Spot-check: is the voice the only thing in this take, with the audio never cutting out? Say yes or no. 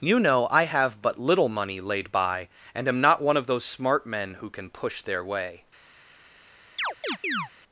no